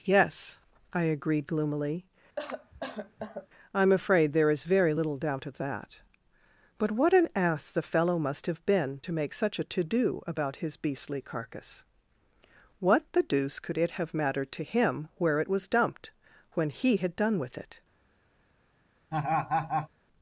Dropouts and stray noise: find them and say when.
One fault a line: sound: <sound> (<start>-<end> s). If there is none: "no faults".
sound: cough (2.4-3.5 s)
sound: laugh (19.1-19.9 s)